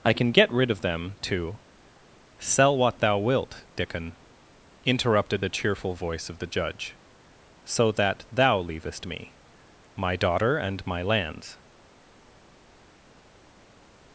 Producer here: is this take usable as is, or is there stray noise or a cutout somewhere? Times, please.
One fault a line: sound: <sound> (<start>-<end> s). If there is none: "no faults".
no faults